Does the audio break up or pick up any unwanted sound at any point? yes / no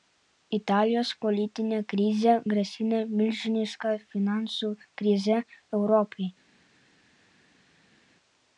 no